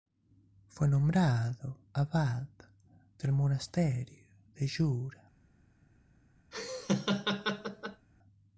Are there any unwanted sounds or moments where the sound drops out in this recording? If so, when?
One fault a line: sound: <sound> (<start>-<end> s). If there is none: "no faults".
sound: laugh (6.5-8.1 s)